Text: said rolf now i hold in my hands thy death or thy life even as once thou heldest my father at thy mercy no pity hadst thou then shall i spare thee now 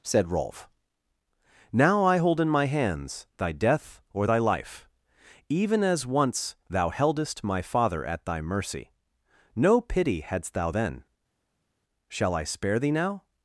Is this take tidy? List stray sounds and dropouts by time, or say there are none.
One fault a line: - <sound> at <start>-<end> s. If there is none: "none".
none